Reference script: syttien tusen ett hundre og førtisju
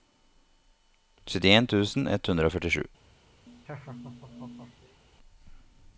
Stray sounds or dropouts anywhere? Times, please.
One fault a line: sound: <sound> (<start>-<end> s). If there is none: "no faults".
sound: laugh (3.5-5.0 s)